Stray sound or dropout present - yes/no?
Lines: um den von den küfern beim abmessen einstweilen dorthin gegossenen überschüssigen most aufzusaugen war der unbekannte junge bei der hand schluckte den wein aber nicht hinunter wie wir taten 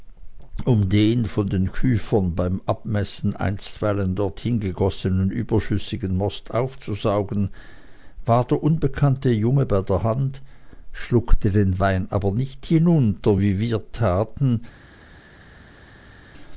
no